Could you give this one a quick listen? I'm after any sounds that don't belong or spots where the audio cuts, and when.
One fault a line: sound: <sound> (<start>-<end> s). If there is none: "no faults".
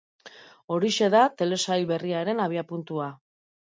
no faults